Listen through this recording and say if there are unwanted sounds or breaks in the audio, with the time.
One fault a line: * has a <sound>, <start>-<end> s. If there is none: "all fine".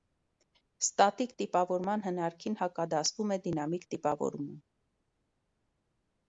all fine